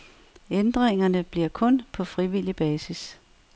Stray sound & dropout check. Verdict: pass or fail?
pass